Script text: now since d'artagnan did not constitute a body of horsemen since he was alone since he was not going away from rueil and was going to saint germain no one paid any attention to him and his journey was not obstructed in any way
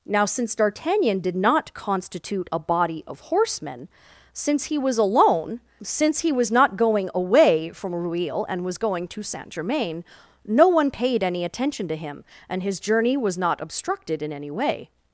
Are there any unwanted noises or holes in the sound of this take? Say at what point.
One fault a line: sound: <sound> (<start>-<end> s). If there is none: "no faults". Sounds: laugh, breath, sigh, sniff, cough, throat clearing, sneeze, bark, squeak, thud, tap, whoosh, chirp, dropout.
no faults